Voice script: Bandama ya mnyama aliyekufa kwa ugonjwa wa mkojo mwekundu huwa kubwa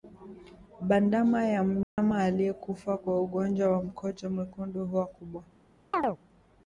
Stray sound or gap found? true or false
true